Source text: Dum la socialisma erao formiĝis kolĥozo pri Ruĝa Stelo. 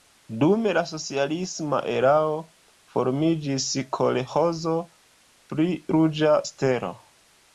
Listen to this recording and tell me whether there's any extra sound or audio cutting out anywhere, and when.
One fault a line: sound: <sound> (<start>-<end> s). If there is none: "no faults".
no faults